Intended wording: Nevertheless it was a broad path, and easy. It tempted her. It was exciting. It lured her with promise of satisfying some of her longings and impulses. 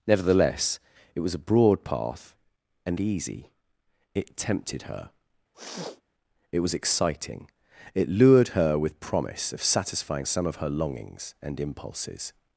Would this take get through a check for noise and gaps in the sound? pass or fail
fail